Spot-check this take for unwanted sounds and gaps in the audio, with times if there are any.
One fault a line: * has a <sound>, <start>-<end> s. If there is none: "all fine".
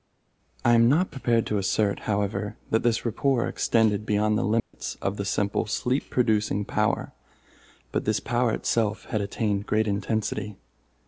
* has a dropout, 4.6-4.7 s